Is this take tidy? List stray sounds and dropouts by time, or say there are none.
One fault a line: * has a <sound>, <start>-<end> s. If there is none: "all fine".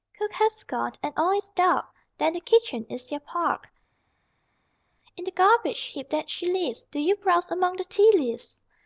all fine